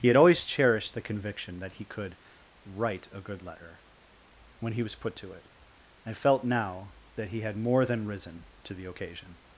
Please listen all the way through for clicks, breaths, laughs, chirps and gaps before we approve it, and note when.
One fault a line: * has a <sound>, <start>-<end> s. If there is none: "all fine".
all fine